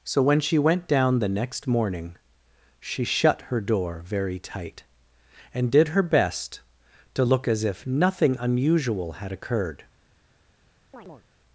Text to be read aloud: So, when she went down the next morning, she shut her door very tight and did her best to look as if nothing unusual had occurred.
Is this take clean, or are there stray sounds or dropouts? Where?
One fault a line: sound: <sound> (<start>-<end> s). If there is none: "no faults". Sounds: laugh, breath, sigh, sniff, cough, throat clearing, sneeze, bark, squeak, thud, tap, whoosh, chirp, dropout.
sound: chirp (10.9-11.3 s)